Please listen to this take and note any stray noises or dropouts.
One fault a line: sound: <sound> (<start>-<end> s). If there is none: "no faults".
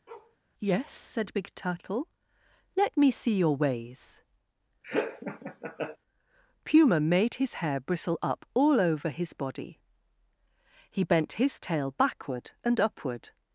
sound: bark (0.1-0.4 s)
sound: laugh (4.8-6.0 s)